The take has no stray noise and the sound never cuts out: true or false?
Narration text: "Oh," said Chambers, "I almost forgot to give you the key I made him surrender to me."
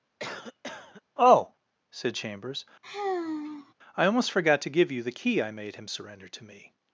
false